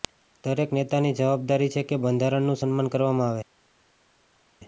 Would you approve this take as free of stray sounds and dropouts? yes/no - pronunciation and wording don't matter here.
yes